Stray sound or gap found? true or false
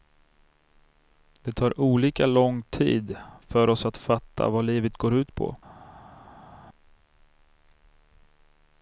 false